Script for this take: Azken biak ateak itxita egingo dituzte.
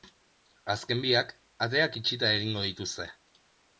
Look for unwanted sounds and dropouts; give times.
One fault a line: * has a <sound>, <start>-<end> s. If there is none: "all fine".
all fine